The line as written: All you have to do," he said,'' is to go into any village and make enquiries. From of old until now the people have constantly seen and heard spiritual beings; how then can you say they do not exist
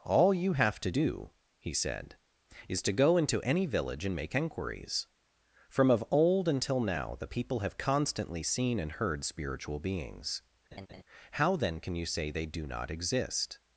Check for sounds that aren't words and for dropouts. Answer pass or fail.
fail